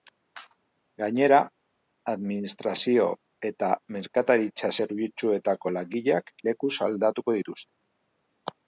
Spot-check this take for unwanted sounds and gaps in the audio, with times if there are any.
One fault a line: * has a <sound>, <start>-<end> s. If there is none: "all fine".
all fine